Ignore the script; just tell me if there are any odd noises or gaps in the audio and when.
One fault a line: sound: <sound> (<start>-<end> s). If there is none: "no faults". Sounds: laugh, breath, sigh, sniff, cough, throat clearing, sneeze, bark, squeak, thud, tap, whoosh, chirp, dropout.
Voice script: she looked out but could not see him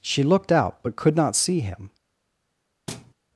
sound: thud (2.9-3.1 s)